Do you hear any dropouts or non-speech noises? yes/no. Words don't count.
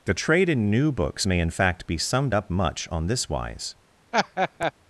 yes